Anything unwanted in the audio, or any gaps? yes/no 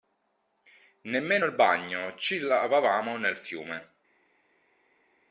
no